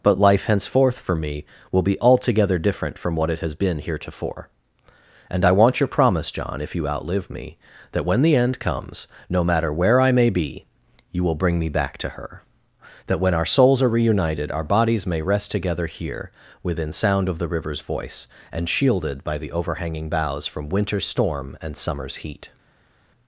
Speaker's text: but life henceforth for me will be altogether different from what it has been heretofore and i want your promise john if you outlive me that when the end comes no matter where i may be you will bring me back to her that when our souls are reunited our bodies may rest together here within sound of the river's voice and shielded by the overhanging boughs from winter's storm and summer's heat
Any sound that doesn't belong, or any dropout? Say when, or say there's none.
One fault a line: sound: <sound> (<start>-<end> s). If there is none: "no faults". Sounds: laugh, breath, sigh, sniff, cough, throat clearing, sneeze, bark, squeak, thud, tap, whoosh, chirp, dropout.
no faults